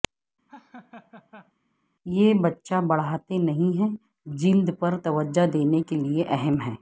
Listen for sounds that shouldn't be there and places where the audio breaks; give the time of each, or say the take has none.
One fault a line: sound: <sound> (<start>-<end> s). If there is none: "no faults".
sound: laugh (0.5-1.5 s)